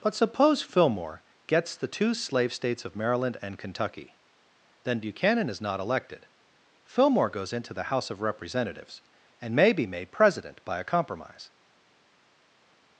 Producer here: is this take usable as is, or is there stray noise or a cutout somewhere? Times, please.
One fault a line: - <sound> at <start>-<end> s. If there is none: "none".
none